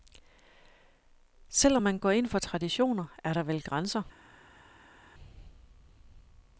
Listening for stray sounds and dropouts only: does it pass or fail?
pass